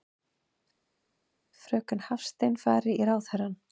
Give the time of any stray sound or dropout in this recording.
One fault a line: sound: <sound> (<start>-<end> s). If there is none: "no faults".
no faults